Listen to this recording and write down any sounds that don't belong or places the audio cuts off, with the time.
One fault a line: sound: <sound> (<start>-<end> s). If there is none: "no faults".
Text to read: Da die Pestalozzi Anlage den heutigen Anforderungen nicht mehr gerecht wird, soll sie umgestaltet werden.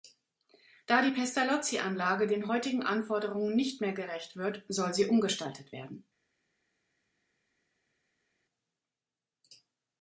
no faults